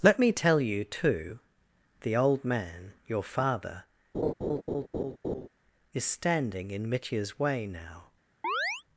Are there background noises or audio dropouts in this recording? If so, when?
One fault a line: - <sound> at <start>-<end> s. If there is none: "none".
- laugh at 4.1-5.5 s
- chirp at 8.4-8.8 s